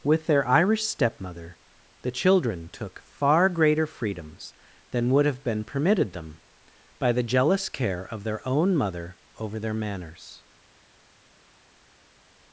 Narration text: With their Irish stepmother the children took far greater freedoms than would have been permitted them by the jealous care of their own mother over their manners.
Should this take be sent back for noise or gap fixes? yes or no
no